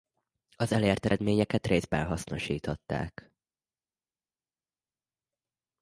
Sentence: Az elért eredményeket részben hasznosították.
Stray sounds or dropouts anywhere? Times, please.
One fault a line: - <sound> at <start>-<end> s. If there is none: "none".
none